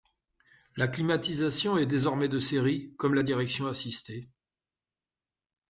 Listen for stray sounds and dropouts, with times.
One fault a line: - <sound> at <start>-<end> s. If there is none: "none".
none